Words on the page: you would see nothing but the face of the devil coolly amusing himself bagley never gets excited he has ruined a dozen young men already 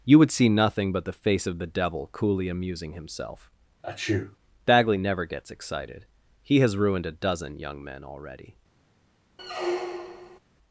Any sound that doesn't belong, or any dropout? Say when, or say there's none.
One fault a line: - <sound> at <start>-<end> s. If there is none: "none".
- sneeze at 3.8-4.4 s
- squeak at 9.4-10.4 s